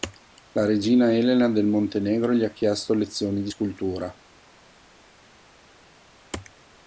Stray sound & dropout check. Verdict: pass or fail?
pass